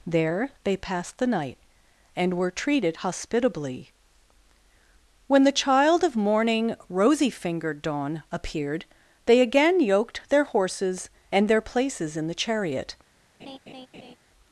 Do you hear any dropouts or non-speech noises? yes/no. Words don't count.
yes